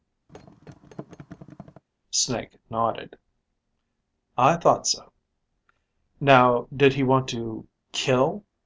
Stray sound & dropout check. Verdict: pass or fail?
fail